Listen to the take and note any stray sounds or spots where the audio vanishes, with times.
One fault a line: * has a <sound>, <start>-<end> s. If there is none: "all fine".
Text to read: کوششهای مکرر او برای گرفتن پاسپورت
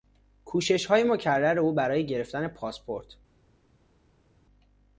all fine